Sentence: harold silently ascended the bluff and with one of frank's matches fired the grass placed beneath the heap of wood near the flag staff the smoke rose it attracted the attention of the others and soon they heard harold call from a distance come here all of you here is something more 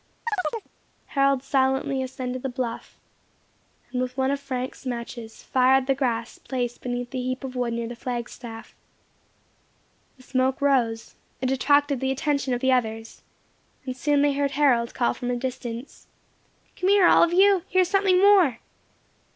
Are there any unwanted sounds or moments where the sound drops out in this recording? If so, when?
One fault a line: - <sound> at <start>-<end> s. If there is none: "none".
- chirp at 0.3-0.7 s